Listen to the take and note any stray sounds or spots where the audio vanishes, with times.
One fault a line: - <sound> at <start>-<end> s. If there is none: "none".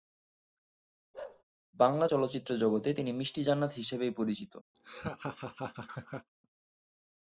- bark at 1.1-1.4 s
- laugh at 4.7-6.3 s